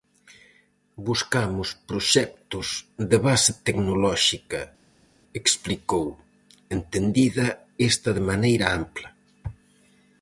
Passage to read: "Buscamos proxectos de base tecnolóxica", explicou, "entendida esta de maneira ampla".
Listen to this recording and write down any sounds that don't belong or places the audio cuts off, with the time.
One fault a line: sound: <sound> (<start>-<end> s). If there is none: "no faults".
no faults